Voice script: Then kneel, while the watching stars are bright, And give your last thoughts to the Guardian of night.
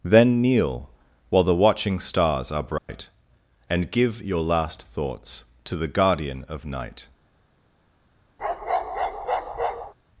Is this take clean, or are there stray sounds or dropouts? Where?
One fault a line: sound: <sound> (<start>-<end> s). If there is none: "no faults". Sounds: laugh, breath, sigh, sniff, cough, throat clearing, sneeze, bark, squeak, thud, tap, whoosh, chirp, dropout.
sound: dropout (2.8-2.9 s)
sound: bark (8.4-9.9 s)